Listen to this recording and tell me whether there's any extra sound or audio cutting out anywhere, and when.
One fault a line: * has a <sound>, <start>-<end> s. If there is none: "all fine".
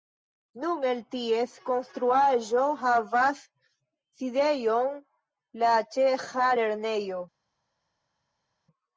all fine